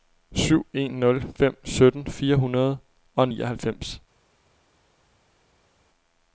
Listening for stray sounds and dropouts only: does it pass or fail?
pass